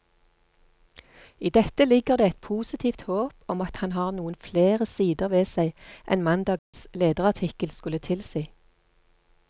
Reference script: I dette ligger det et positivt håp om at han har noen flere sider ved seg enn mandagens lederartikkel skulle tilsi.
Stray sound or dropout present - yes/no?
yes